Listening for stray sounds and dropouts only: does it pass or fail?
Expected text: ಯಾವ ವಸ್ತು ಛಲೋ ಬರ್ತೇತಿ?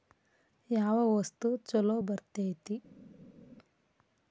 pass